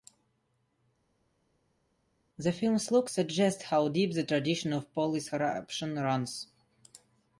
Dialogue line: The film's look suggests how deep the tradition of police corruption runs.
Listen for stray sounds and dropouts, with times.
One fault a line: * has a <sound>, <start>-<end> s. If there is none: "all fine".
all fine